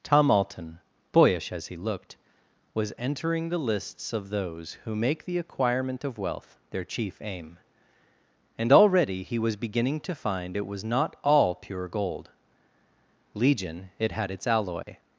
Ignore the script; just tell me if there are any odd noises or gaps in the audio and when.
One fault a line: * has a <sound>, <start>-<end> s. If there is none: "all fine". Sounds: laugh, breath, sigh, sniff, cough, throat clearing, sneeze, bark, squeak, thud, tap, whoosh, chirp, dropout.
* has a dropout, 14.8-14.9 s